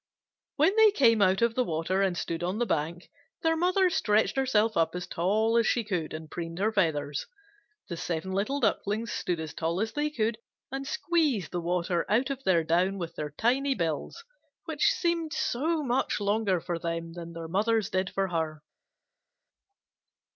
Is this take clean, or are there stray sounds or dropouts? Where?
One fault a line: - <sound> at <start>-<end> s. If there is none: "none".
none